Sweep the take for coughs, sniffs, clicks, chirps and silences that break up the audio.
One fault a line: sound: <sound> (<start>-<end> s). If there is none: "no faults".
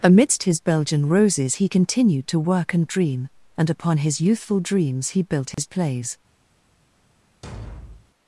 sound: dropout (5.5-5.6 s)
sound: thud (7.4-8.1 s)